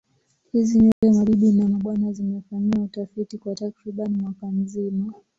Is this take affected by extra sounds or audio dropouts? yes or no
yes